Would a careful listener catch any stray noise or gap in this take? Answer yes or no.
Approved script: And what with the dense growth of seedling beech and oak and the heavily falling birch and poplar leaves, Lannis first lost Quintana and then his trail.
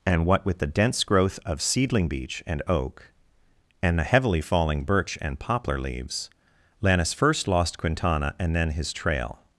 no